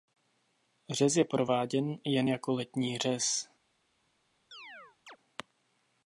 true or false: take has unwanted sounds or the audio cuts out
true